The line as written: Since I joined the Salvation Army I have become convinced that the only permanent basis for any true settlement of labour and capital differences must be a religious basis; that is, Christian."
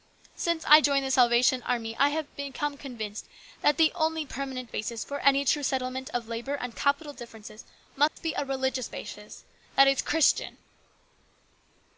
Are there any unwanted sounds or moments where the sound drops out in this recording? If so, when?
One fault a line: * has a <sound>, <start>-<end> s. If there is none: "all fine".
* has a dropout, 8.1-8.2 s